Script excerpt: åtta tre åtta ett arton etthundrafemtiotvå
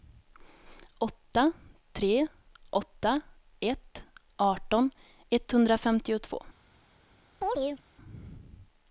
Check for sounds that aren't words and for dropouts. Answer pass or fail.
fail